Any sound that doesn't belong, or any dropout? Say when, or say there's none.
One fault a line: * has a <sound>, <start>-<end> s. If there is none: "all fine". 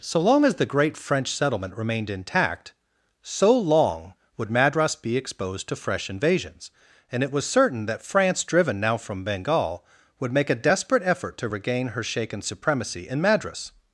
all fine